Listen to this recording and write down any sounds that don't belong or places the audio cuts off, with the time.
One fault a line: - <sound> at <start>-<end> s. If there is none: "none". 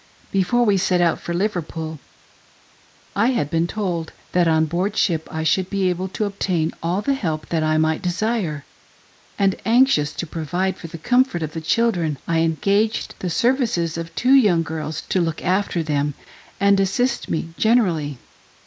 none